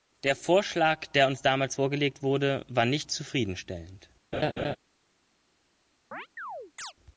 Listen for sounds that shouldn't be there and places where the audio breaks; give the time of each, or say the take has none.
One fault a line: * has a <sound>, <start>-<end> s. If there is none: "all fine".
* has a laugh, 4.3-4.8 s
* has a chirp, 6.1-6.9 s